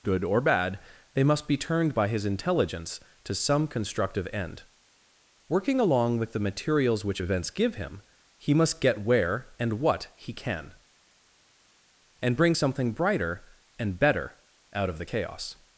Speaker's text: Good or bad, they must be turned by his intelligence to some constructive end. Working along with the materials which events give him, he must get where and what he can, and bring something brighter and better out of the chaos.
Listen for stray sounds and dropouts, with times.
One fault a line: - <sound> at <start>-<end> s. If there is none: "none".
none